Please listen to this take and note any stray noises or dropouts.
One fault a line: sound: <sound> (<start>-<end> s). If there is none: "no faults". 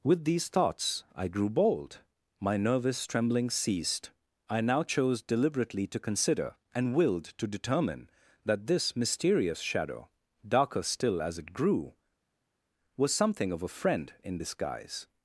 no faults